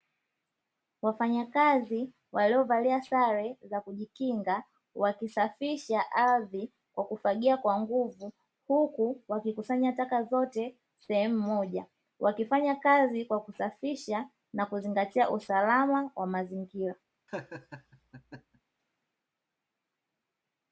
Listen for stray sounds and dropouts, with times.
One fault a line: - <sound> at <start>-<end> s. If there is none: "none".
- laugh at 17.3-18.6 s